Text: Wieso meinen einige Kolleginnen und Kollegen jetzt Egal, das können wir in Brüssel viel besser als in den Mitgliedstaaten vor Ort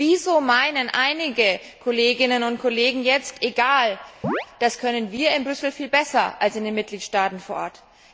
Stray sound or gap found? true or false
true